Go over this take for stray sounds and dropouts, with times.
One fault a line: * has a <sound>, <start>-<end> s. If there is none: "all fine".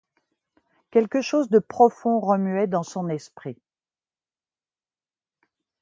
all fine